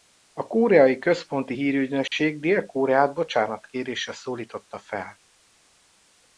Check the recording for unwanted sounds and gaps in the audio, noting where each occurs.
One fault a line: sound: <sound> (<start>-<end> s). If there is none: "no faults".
sound: dropout (2.1-2.1 s)